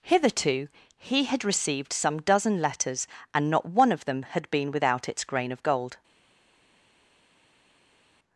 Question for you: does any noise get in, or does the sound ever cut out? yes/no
no